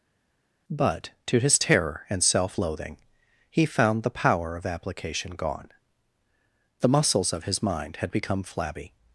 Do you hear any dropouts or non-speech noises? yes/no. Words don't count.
no